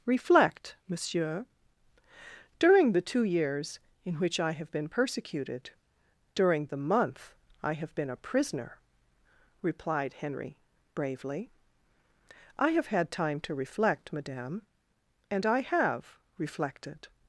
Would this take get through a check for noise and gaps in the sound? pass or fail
pass